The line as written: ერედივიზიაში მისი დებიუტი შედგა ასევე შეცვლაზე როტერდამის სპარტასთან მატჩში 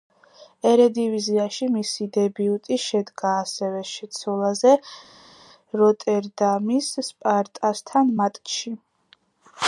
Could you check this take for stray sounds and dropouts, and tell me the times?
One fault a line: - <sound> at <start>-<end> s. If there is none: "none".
none